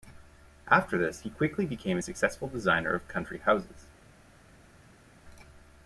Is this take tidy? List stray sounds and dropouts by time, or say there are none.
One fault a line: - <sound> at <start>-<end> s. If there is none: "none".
none